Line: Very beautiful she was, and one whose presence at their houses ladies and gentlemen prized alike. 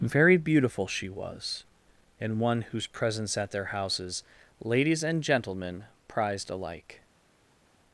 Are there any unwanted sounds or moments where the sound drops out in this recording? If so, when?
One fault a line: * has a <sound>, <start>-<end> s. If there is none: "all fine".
all fine